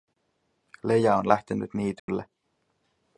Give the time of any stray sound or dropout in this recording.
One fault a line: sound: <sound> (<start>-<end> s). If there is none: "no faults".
sound: dropout (2.0-2.1 s)